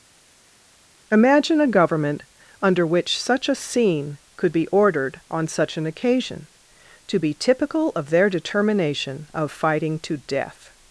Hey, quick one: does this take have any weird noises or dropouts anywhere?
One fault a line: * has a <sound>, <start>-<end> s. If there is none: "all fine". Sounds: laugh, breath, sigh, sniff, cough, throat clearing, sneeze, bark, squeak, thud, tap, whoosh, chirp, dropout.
all fine